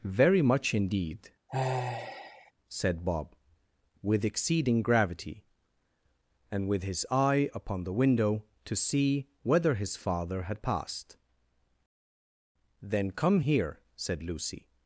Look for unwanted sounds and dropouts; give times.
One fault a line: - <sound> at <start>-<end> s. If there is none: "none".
- sigh at 1.5-2.5 s